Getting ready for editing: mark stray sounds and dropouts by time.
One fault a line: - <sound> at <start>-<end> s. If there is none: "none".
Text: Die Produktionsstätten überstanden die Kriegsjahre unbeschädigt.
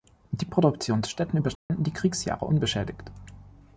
- dropout at 1.6-1.7 s